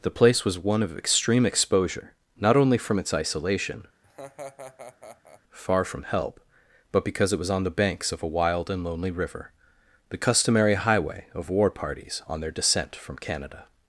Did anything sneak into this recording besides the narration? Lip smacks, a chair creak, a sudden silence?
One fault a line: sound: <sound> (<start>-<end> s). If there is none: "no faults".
sound: laugh (4.0-5.4 s)